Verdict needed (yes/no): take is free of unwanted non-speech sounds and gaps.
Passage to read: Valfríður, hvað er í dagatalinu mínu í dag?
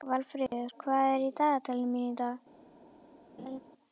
no